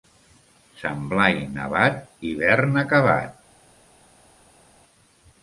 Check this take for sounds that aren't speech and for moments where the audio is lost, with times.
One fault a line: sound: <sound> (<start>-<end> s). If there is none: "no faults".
no faults